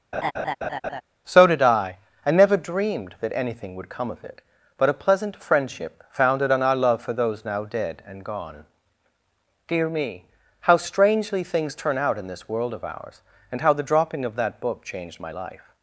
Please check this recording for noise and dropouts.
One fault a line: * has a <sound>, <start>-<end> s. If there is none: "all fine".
* has a laugh, 0.1-1.0 s